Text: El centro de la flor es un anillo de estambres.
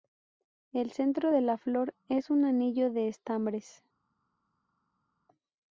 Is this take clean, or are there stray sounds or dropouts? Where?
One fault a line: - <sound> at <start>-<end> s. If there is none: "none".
none